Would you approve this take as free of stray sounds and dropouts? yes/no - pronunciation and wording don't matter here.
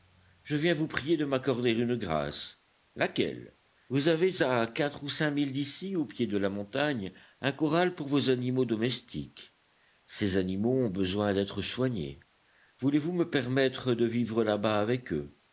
yes